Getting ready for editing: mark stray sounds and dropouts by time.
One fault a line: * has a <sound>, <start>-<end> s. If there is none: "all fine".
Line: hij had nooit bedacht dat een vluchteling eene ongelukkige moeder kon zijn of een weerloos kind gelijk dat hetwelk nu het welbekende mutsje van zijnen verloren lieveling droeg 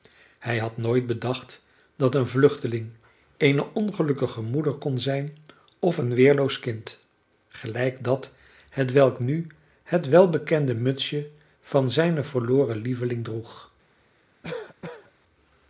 * has a cough, 14.4-15.1 s